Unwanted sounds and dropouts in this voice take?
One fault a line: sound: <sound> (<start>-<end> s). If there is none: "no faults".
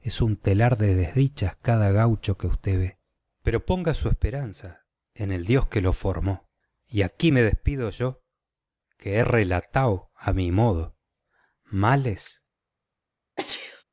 sound: sneeze (13.4-13.8 s)